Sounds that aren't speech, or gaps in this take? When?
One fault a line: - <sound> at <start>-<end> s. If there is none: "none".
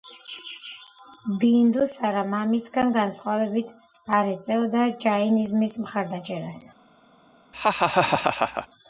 - laugh at 7.5-8.7 s